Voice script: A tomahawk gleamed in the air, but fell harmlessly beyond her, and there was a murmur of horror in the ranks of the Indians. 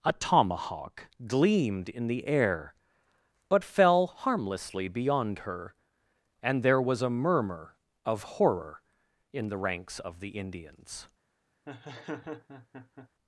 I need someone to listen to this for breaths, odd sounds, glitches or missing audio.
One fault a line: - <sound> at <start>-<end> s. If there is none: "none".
- laugh at 11.7-13.1 s